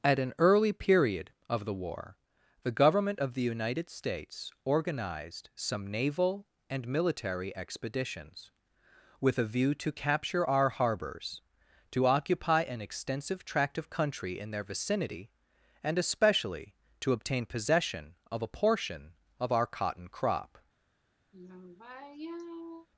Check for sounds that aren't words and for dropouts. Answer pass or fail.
fail